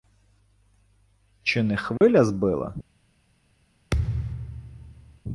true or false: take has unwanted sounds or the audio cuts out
true